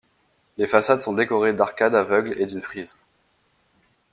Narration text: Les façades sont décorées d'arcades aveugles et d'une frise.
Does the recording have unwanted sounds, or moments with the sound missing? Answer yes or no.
no